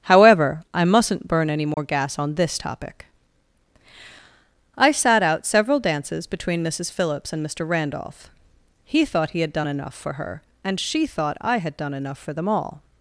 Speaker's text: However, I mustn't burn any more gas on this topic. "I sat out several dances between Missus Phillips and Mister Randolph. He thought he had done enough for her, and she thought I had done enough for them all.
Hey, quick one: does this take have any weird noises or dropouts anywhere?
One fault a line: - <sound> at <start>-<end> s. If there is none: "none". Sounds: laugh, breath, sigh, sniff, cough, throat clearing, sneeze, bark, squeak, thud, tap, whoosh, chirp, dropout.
- dropout at 1.7-1.8 s